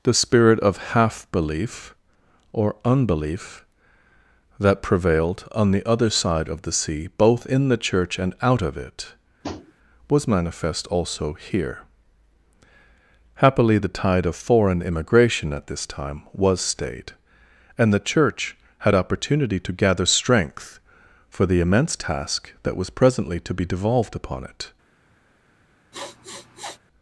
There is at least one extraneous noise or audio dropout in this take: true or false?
true